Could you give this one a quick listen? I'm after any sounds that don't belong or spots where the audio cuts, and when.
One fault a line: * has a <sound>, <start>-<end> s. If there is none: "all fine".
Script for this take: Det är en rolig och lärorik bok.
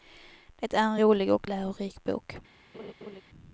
* has a laugh, 2.7-3.2 s